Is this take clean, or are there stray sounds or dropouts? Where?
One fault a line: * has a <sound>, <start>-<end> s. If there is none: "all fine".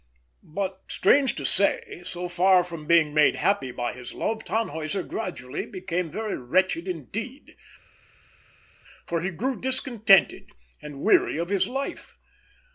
all fine